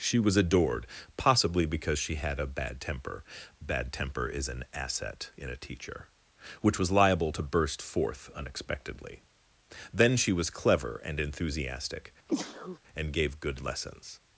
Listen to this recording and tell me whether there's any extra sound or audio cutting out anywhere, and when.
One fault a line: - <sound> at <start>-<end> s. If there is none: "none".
- sneeze at 12.3-12.8 s